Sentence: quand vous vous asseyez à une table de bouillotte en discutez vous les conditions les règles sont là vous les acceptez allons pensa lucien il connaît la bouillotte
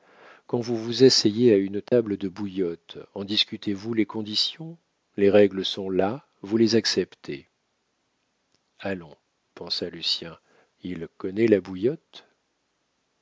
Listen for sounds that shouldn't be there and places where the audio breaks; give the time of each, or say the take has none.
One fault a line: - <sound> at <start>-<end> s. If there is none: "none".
- dropout at 1.9-1.9 s